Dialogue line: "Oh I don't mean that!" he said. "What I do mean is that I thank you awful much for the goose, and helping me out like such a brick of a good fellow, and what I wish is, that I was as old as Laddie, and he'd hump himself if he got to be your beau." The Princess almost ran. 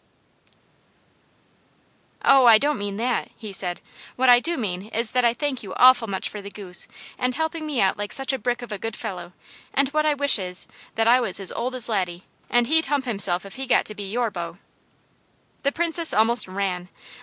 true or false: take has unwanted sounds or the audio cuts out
false